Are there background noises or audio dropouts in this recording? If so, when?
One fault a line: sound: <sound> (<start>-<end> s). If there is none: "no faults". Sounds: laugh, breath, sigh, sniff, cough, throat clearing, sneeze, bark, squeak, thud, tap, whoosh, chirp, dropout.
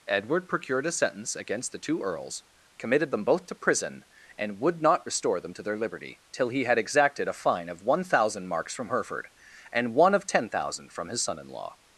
no faults